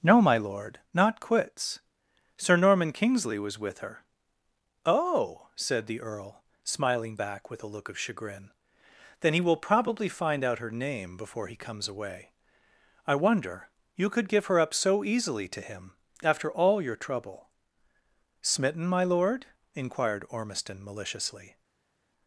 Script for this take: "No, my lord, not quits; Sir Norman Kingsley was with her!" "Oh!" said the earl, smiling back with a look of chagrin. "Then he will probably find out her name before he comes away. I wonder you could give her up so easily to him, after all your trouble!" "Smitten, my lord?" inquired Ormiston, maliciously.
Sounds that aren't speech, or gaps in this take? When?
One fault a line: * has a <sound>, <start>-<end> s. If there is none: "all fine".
all fine